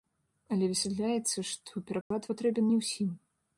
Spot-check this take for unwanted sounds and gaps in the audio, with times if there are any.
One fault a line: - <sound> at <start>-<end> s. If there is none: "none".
- dropout at 2.0-2.1 s